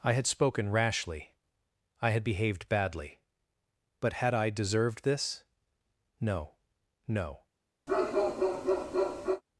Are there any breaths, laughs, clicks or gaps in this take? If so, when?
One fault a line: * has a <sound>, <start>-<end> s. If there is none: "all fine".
* has a bark, 7.9-9.4 s